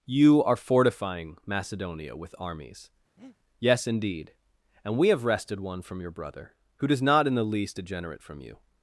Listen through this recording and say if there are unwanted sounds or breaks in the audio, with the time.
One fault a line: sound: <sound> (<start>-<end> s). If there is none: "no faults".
sound: breath (3.2-3.4 s)